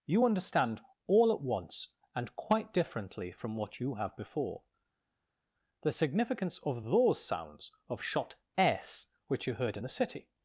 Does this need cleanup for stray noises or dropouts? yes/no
no